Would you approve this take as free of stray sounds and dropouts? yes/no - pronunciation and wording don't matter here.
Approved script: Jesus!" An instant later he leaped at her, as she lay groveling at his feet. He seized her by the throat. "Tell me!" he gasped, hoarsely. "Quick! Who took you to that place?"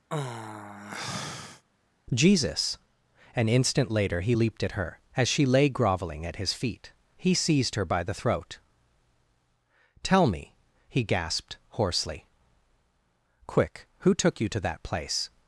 no